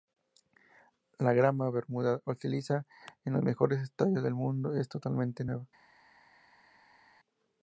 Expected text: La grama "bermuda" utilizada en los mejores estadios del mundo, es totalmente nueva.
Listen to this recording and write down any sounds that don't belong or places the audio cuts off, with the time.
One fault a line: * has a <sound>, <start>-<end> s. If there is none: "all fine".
all fine